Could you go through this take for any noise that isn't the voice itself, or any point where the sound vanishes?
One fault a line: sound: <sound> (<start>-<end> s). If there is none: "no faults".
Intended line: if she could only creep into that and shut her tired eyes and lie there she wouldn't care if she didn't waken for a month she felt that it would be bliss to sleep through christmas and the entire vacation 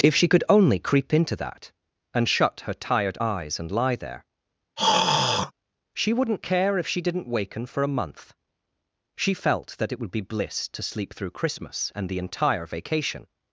sound: throat clearing (4.8-5.5 s)